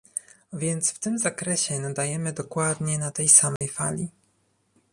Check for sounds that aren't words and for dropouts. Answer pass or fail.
fail